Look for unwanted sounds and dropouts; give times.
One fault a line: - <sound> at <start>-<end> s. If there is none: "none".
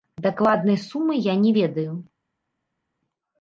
none